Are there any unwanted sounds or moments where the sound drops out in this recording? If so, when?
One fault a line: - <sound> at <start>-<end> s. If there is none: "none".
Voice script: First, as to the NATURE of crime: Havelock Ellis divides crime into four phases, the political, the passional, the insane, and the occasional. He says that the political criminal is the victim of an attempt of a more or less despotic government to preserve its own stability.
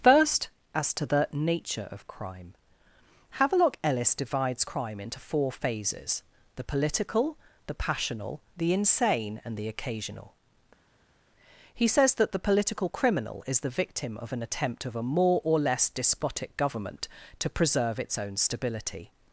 none